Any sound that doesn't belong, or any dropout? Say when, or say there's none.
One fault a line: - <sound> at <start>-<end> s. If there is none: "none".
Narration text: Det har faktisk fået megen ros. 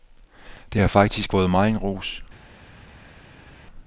none